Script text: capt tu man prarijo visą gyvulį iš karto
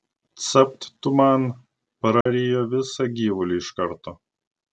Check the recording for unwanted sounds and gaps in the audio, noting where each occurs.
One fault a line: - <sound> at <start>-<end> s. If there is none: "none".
- dropout at 2.2-2.3 s